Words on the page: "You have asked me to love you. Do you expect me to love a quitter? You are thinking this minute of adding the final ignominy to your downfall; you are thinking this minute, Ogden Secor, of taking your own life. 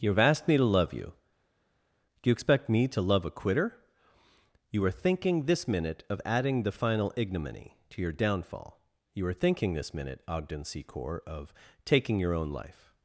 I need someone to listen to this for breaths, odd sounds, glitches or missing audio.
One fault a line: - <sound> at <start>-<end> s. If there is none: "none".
none